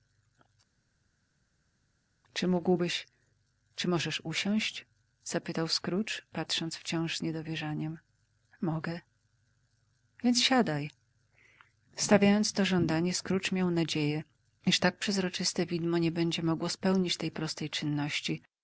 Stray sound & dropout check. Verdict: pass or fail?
pass